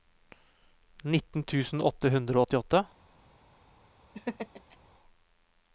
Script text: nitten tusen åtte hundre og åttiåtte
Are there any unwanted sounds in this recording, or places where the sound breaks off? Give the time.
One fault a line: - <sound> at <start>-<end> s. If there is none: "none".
- laugh at 4.1-4.8 s